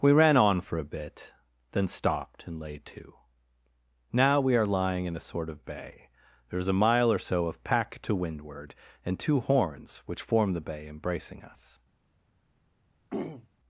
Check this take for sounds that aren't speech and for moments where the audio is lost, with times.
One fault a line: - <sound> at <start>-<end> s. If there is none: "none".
- throat clearing at 13.1-13.5 s